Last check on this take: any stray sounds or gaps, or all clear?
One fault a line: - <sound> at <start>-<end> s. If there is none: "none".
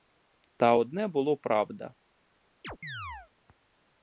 - chirp at 2.6-3.3 s